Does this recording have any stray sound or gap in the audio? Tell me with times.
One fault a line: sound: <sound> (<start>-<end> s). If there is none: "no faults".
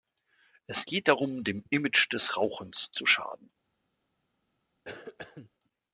sound: cough (4.8-5.5 s)